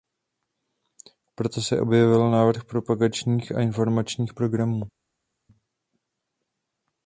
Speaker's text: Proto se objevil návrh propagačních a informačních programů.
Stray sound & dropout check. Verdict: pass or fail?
pass